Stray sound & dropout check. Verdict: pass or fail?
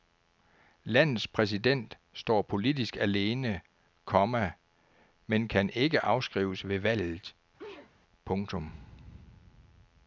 fail